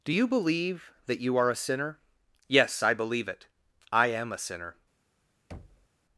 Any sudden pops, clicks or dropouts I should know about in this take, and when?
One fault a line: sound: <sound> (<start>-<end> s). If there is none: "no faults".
sound: thud (5.5-5.9 s)